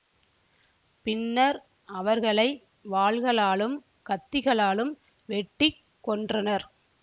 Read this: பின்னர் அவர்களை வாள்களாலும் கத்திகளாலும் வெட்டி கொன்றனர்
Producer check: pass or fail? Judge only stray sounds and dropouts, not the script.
pass